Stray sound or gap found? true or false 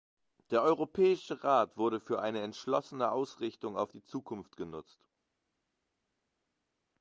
false